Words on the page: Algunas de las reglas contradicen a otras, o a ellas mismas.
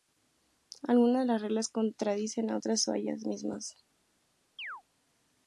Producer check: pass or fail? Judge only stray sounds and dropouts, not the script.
fail